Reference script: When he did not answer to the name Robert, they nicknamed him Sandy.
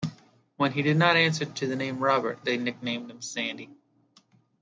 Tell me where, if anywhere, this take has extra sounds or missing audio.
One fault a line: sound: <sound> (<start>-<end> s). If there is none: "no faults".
no faults